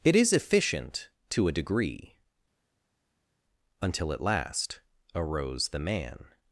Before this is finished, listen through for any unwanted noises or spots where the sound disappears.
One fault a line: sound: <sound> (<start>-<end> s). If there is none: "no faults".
no faults